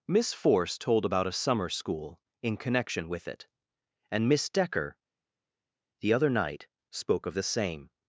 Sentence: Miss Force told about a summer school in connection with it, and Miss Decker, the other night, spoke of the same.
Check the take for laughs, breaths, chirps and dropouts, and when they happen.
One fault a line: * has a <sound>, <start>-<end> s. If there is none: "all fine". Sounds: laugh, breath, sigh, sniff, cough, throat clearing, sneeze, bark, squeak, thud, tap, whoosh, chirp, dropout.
all fine